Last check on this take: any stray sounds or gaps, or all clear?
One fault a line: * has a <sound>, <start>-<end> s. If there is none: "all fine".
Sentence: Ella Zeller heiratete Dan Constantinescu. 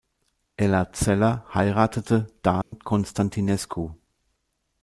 * has a dropout, 2.6-2.7 s